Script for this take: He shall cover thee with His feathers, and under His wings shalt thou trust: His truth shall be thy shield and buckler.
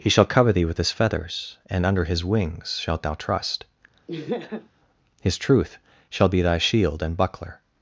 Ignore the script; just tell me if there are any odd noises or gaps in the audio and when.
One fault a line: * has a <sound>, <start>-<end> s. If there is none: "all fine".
* has a laugh, 4.1-4.7 s